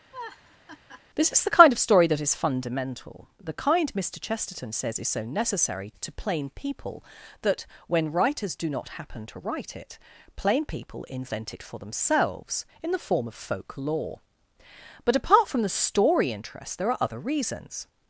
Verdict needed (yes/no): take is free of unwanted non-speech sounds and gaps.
no